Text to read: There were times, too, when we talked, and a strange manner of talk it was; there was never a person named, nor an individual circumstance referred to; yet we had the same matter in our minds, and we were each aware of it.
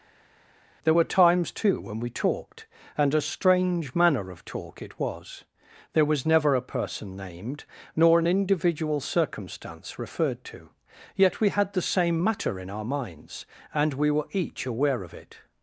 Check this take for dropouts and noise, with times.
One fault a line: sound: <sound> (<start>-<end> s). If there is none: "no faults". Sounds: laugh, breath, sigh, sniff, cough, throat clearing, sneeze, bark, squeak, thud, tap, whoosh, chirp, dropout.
no faults